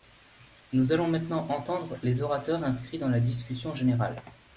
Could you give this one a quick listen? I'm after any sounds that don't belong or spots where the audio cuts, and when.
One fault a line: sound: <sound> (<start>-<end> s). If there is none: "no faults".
no faults